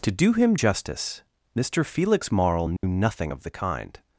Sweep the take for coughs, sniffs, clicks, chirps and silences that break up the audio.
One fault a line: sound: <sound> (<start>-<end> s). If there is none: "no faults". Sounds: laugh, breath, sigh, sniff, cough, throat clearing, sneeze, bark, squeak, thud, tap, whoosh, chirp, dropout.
sound: dropout (2.8-2.8 s)